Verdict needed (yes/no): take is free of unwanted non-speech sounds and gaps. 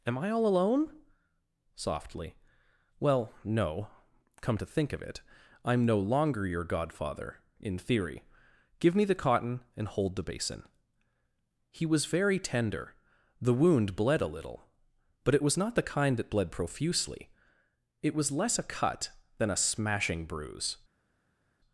yes